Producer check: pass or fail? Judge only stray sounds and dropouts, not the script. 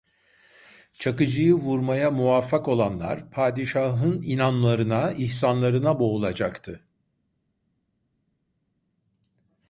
pass